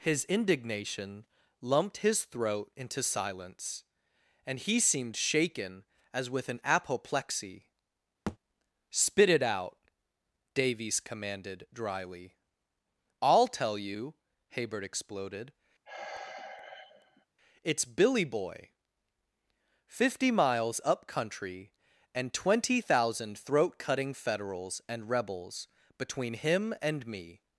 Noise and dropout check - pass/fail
fail